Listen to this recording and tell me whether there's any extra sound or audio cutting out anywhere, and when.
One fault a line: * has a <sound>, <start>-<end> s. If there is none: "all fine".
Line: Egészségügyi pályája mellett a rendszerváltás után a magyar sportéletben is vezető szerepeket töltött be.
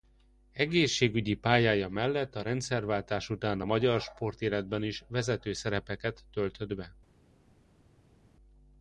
all fine